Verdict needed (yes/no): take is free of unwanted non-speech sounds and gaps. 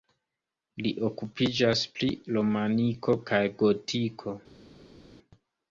yes